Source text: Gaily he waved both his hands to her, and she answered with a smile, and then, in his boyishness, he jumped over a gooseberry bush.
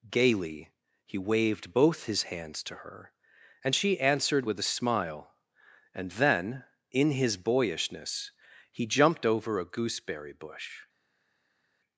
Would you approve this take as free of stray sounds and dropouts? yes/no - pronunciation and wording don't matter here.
yes